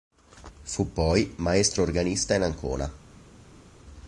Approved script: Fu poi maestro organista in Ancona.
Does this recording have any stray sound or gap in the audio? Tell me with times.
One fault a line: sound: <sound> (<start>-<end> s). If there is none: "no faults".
no faults